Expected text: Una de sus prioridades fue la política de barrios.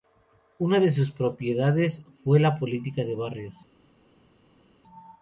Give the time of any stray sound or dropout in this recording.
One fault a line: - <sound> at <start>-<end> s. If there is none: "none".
none